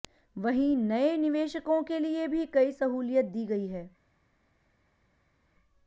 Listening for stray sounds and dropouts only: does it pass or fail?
pass